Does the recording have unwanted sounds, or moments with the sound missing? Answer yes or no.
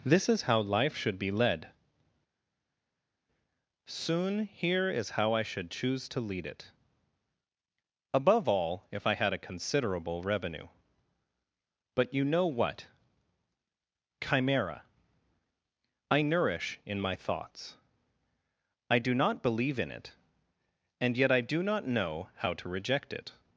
no